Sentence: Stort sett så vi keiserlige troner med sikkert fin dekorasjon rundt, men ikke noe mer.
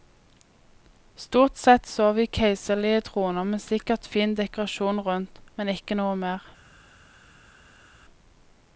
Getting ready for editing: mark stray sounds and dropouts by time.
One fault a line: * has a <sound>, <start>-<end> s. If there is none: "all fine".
all fine